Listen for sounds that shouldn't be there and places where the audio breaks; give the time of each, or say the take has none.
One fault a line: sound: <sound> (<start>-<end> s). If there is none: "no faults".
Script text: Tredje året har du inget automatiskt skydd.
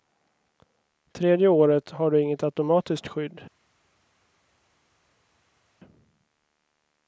no faults